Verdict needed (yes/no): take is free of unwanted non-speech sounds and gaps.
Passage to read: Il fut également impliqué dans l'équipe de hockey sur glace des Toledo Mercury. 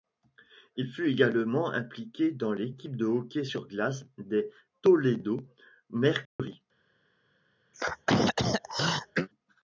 no